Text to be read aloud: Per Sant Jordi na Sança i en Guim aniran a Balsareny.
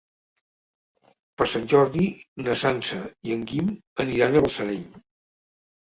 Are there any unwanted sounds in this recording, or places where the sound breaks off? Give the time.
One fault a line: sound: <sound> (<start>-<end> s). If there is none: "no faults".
no faults